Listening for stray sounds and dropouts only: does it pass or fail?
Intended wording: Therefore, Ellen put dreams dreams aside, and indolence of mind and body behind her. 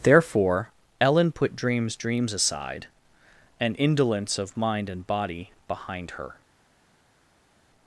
pass